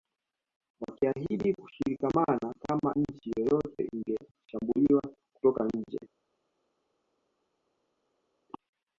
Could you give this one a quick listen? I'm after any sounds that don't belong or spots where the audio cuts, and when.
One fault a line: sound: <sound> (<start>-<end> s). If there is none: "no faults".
no faults